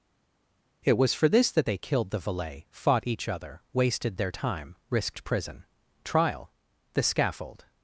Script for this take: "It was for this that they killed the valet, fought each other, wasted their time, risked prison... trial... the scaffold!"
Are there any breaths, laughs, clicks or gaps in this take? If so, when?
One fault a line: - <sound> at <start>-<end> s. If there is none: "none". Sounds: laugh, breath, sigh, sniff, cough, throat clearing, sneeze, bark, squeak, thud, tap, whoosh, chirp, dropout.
none